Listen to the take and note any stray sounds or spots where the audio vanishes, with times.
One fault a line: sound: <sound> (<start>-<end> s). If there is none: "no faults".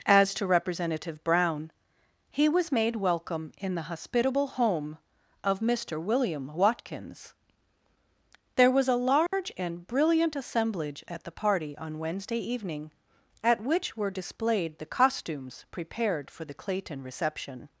sound: dropout (9.3-9.3 s)